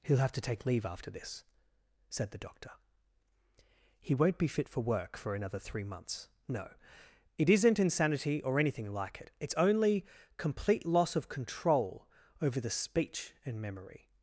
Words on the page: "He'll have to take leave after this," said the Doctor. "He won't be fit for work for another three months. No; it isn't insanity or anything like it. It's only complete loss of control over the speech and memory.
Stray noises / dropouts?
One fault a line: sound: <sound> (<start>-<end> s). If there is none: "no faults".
no faults